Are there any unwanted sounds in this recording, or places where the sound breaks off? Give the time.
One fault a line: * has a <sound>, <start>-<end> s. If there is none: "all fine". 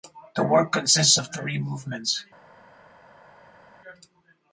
all fine